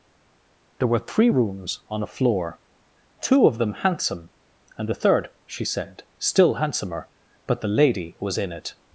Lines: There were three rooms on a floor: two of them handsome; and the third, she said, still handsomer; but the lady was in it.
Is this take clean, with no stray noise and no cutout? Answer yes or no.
yes